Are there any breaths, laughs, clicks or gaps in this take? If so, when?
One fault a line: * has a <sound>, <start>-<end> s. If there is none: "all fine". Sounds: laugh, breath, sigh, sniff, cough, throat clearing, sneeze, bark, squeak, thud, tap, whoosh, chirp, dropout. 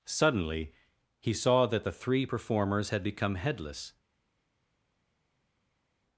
all fine